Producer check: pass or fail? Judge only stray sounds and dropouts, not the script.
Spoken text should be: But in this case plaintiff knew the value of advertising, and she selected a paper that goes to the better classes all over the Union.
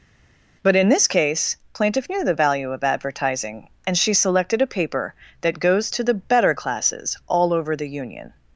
pass